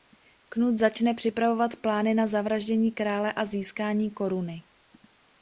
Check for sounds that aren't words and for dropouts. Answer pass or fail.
pass